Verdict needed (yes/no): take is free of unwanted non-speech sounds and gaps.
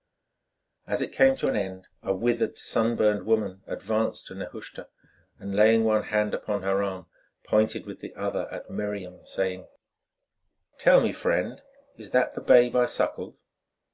yes